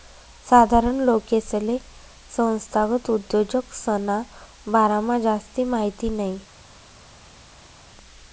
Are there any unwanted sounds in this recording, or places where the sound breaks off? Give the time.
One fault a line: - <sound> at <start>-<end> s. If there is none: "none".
none